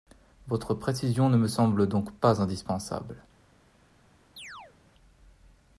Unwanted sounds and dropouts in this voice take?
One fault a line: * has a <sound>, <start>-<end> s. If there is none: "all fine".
* has a chirp, 4.4-4.7 s